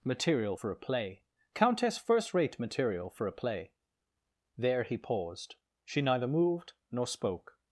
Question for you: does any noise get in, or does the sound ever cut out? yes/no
no